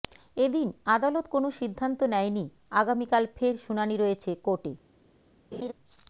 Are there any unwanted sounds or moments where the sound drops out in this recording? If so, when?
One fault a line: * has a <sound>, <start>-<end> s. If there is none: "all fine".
* has a laugh, 5.5-5.7 s